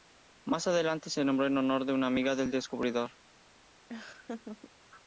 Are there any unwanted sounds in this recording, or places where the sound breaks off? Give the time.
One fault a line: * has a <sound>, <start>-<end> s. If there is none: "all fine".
* has a laugh, 3.9-4.7 s